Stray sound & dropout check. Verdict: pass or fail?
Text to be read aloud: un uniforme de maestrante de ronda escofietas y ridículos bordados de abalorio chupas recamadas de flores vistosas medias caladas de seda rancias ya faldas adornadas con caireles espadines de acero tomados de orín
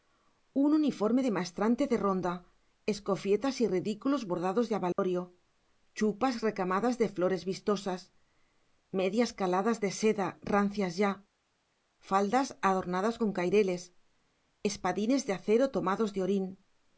fail